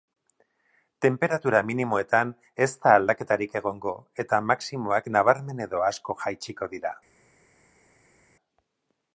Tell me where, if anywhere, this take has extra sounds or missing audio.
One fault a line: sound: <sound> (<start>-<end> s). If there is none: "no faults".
no faults